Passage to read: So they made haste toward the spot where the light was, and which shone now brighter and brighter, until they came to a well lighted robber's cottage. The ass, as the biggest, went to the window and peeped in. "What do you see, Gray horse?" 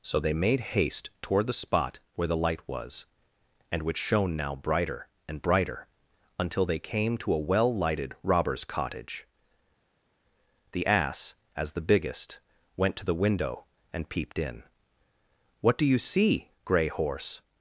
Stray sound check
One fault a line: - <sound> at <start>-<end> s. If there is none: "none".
none